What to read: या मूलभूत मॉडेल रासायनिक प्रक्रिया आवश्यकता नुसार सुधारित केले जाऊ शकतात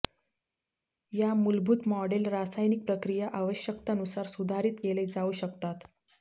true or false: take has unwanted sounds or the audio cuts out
false